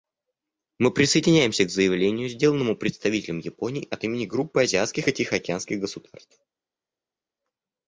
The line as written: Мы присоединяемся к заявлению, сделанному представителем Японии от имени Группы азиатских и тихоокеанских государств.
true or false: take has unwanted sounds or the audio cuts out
false